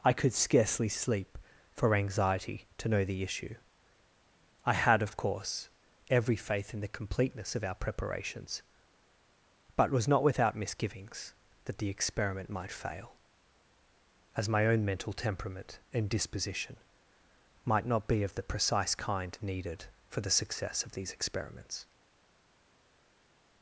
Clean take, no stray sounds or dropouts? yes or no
yes